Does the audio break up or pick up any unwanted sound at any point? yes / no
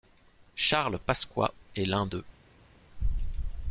no